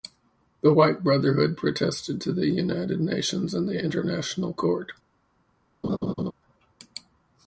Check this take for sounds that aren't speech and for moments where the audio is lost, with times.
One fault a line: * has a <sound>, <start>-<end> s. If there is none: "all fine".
* has a laugh, 5.8-6.3 s